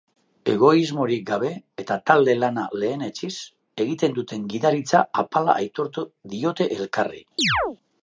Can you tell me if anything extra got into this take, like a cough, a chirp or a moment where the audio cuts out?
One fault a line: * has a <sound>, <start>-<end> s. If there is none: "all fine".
* has a chirp, 7.4-7.8 s